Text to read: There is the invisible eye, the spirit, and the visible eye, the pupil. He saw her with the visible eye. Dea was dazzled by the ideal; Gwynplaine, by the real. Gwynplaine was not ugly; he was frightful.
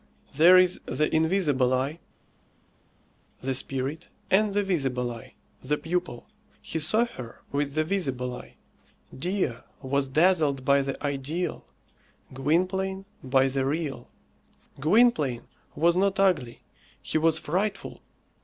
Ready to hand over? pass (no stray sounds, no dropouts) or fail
pass